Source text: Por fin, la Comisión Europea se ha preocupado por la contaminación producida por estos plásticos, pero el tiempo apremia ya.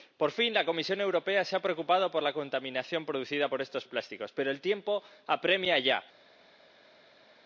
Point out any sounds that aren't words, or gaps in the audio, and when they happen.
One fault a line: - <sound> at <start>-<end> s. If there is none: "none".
none